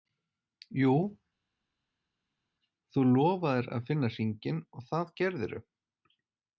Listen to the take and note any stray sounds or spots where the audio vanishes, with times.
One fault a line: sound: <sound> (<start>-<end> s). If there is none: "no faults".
no faults